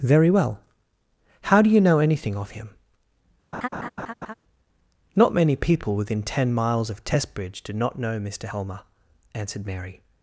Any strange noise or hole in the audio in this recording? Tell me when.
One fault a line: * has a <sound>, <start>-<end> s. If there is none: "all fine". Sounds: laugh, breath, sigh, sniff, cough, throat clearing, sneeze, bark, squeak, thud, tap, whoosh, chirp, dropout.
* has a laugh, 3.5-4.3 s